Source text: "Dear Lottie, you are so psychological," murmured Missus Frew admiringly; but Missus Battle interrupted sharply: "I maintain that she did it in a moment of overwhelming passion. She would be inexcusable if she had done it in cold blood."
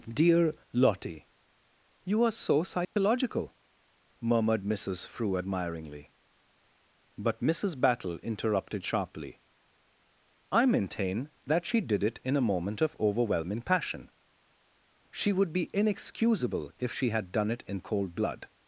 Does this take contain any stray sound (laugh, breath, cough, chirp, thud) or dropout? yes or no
yes